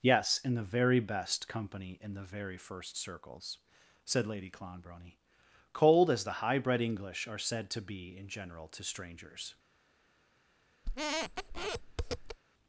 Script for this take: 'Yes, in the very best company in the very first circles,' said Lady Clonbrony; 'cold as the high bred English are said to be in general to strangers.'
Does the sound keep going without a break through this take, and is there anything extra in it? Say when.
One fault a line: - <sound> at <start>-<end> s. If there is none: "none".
- squeak at 10.8-12.4 s